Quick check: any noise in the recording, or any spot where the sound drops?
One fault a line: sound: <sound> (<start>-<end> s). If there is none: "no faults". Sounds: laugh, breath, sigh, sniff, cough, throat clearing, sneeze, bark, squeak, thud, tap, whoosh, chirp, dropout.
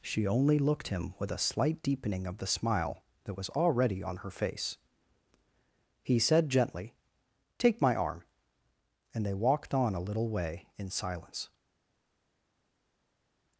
no faults